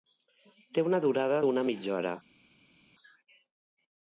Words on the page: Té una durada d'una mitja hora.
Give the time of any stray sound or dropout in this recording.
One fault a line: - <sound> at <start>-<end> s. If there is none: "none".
none